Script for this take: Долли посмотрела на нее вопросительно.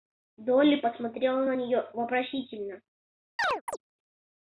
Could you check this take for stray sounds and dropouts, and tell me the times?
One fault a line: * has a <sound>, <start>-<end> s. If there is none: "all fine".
* has a chirp, 3.4-3.8 s